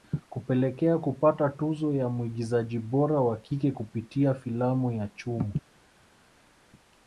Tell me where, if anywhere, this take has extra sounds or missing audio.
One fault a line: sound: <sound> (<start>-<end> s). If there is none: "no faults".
no faults